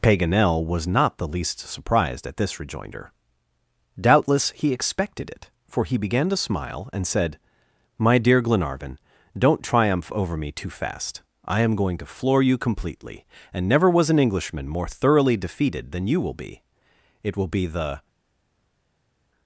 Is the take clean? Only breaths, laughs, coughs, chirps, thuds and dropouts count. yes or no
yes